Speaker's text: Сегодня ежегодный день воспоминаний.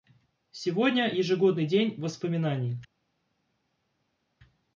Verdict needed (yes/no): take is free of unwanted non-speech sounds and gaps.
yes